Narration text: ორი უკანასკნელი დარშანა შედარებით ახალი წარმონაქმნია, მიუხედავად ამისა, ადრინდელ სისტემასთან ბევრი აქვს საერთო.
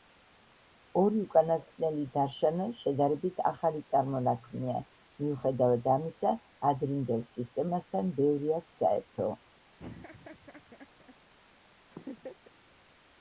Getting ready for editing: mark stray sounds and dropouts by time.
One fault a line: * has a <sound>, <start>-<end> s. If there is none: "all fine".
* has a laugh, 9.8-11.1 s
* has a laugh, 11.9-12.6 s